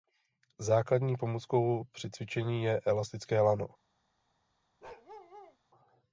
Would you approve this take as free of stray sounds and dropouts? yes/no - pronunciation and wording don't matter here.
no